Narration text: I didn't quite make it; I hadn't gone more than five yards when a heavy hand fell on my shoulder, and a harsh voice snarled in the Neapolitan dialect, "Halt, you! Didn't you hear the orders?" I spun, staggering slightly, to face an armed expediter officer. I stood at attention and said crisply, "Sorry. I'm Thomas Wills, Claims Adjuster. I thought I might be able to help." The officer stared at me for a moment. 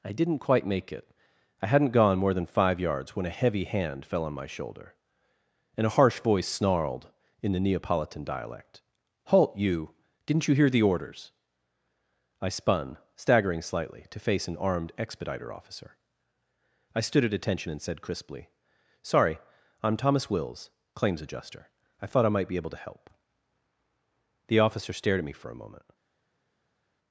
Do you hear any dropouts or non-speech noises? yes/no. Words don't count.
no